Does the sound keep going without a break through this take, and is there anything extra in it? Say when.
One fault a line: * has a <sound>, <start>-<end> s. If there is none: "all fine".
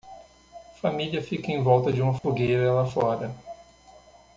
* has a dropout, 2.2-2.2 s